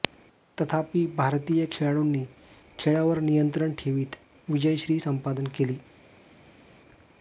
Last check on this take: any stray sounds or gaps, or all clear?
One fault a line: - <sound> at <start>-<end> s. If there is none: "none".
none